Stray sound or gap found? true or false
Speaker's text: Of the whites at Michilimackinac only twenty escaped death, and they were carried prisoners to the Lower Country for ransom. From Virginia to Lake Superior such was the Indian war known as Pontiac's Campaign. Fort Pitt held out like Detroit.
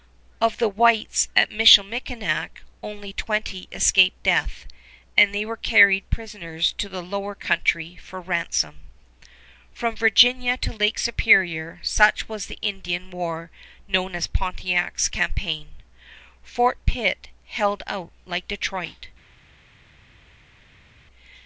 false